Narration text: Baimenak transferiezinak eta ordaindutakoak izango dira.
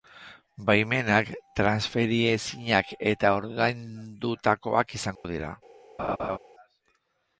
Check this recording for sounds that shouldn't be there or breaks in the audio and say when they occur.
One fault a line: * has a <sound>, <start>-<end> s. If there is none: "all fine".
* has a dropout, 5.2-5.2 s
* has a laugh, 6.0-6.4 s